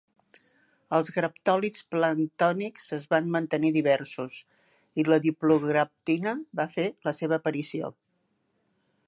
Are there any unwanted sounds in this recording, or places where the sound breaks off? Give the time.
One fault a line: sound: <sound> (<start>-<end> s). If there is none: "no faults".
no faults